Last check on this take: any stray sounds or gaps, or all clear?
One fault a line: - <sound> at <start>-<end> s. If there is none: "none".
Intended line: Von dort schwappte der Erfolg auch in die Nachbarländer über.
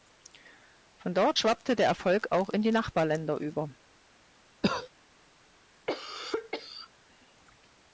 - cough at 4.6-4.9 s
- cough at 5.9-6.9 s